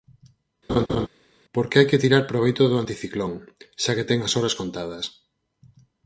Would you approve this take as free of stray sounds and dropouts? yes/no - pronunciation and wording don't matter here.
no